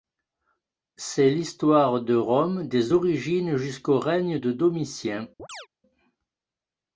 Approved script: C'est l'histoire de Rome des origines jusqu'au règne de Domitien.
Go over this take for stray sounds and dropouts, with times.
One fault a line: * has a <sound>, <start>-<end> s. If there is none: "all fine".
* has a chirp, 5.4-5.7 s